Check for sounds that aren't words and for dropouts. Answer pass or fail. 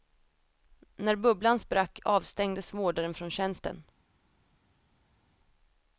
pass